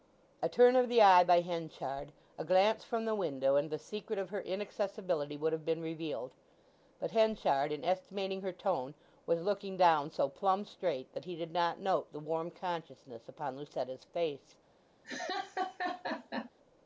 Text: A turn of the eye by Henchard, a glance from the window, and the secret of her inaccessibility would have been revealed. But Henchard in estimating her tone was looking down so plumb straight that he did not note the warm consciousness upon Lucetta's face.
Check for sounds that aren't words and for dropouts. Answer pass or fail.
fail